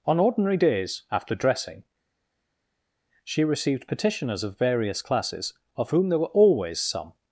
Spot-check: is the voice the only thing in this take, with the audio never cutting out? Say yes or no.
yes